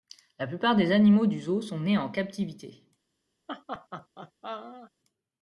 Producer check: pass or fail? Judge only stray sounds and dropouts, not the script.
fail